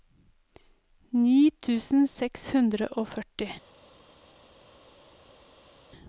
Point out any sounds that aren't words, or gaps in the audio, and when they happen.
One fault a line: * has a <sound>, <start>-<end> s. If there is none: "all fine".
all fine